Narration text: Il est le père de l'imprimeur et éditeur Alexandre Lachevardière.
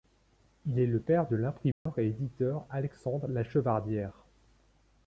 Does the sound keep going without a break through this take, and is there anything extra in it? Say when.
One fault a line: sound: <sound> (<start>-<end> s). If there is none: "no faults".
sound: dropout (1.7-1.9 s)